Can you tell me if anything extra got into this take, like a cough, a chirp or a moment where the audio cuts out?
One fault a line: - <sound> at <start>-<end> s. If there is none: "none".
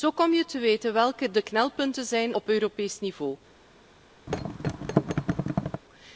- thud at 4.3-5.8 s